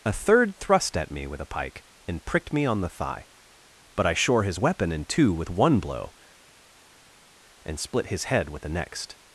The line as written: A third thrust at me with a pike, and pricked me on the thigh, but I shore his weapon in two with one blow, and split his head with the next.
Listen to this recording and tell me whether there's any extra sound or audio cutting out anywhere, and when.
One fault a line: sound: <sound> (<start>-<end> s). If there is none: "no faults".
no faults